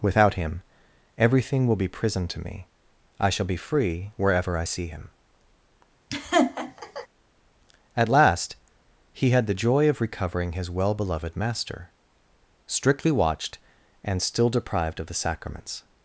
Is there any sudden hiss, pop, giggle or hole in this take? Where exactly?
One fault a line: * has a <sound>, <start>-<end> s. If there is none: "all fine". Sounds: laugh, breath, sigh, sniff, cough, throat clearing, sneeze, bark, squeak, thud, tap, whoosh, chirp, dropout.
* has a laugh, 6.1-7.1 s